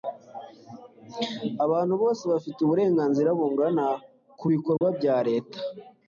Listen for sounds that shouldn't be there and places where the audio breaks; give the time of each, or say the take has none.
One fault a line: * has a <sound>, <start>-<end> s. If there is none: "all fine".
* has a dropout, 4.8-4.8 s